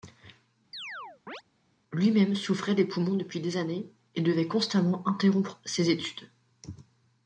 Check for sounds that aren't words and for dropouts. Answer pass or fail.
fail